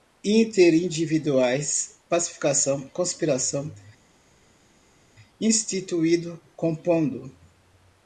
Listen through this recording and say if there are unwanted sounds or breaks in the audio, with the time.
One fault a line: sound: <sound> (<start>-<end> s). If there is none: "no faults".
no faults